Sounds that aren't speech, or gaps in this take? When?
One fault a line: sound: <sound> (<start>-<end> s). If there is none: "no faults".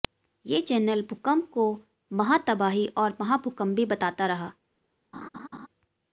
sound: laugh (5.1-5.7 s)